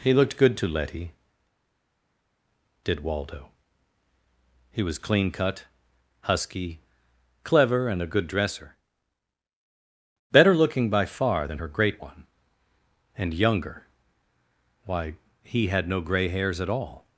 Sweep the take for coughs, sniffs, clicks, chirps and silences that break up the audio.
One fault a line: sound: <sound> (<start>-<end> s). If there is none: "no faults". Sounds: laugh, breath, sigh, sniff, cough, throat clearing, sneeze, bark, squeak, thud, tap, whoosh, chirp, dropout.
no faults